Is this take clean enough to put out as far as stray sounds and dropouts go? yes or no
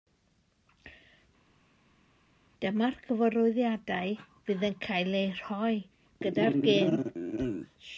yes